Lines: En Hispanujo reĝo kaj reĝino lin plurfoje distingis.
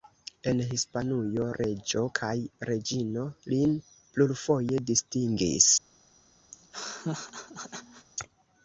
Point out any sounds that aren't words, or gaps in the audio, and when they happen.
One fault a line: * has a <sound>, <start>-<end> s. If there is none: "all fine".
* has a laugh, 6.5-8.1 s